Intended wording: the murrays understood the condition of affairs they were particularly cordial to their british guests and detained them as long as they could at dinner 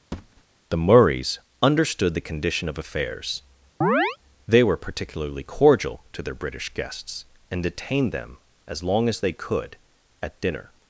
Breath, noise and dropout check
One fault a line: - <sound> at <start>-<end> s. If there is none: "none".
- thud at 0.1-0.4 s
- chirp at 3.8-4.2 s